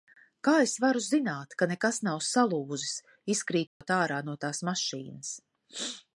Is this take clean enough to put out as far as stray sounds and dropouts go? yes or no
no